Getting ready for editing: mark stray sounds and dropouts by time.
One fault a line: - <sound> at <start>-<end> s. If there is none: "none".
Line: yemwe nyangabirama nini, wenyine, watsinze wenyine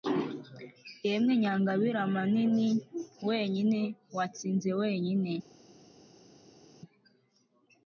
none